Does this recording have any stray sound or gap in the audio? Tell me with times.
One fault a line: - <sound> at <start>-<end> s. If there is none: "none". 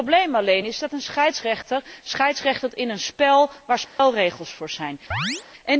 - dropout at 3.9-4.0 s
- chirp at 5.1-5.4 s